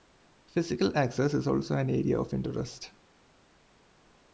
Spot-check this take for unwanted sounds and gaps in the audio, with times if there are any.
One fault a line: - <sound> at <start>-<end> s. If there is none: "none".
none